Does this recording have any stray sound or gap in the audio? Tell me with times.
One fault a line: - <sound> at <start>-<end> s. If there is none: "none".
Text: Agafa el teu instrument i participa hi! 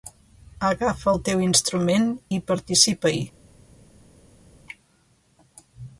none